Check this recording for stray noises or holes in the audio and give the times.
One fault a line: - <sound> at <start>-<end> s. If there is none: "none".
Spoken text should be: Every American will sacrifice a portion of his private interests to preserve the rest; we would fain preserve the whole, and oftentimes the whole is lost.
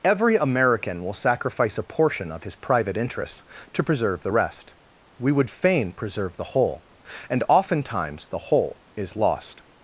none